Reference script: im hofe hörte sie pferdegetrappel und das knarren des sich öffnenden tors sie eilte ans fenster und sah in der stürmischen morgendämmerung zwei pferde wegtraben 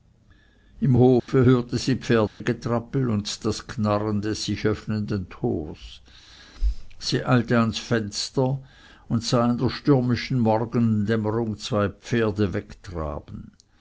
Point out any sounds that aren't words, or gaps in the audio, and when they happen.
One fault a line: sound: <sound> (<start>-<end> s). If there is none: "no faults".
sound: dropout (1.2-1.3 s)
sound: dropout (2.3-2.4 s)